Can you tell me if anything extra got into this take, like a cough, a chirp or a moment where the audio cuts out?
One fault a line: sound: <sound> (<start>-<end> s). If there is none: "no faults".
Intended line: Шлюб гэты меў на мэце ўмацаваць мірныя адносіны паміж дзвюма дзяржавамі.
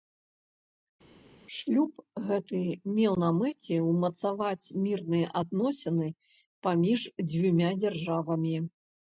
no faults